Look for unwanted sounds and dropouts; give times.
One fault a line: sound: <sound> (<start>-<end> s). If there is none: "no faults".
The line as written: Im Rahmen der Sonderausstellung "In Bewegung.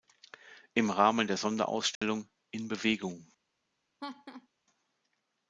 sound: dropout (2.0-2.0 s)
sound: laugh (4.0-4.5 s)